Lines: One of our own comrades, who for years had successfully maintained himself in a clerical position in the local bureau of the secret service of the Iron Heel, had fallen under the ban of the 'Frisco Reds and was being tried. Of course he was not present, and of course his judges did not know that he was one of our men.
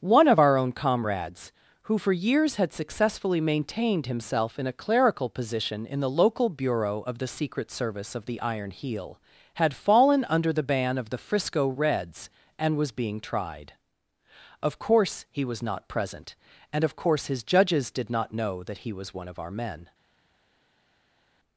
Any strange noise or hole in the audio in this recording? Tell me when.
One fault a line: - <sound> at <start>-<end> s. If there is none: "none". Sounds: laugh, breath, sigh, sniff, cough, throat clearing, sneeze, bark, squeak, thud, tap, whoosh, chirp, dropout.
none